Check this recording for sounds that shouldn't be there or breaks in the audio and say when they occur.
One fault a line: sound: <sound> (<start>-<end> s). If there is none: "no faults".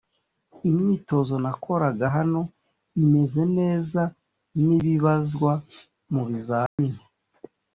sound: dropout (6.7-6.8 s)